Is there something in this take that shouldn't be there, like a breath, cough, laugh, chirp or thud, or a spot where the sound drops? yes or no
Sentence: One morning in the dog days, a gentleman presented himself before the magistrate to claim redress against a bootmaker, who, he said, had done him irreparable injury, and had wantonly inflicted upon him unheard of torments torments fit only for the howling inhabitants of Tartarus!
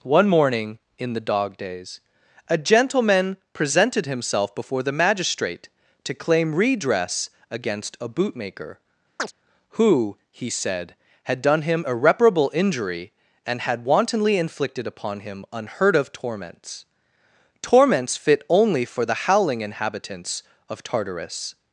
yes